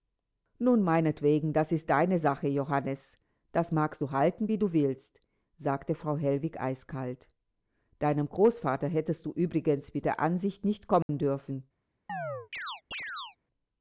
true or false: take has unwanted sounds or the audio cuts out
true